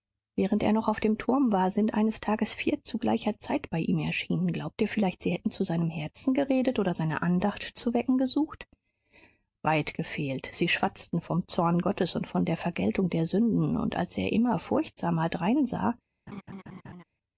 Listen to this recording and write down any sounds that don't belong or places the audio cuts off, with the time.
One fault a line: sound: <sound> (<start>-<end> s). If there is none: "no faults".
sound: laugh (16.3-17.0 s)